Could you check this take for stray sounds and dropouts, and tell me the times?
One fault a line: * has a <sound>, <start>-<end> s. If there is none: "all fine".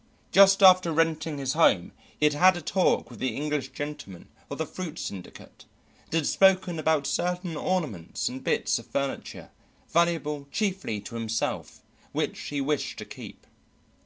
all fine